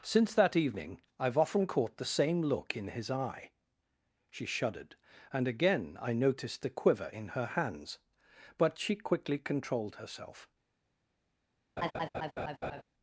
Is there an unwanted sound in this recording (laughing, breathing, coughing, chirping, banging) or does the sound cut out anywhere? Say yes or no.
yes